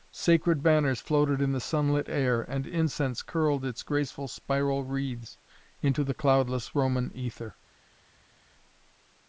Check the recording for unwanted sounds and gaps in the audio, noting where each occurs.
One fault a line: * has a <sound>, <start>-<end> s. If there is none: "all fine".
all fine